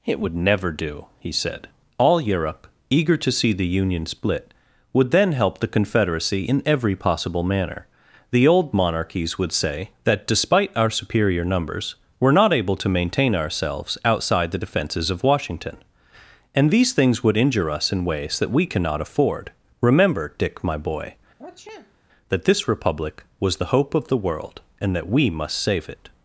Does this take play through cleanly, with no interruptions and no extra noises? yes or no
no